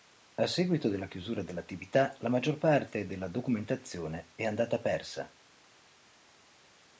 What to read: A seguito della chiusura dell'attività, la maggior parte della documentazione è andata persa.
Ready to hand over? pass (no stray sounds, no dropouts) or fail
pass